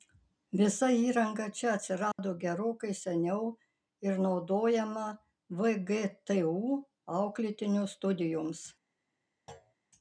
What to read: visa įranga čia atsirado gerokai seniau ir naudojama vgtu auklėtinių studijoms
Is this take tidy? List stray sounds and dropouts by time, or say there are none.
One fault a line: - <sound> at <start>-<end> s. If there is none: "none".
- dropout at 2.1-2.2 s
- thud at 9.5-9.7 s